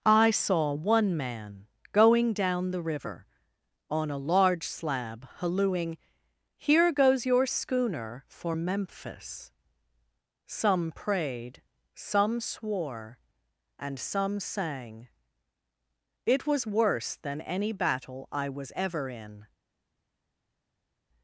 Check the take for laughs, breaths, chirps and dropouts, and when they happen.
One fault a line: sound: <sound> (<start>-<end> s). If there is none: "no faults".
no faults